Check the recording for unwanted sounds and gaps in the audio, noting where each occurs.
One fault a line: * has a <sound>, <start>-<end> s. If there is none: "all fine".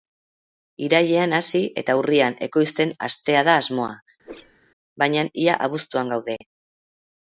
* has a whoosh, 4.2-4.6 s